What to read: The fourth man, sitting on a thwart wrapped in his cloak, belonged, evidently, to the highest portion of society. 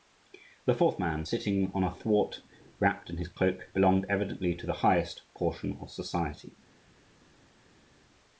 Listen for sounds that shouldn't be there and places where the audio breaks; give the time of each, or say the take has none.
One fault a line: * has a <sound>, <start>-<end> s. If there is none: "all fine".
all fine